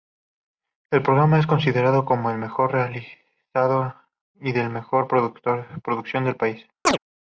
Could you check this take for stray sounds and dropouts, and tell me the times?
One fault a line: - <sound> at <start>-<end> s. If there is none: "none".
- chirp at 6.8-7.0 s